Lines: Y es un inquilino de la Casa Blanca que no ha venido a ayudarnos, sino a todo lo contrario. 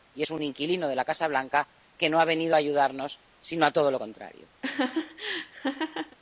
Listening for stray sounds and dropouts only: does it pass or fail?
fail